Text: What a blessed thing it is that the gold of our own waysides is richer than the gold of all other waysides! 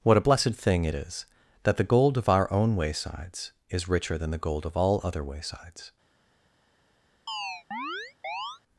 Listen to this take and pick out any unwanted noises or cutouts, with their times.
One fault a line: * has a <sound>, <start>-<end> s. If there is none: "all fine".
* has a chirp, 7.3-8.6 s